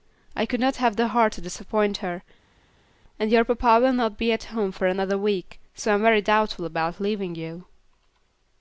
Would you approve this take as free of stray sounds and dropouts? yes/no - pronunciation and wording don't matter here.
yes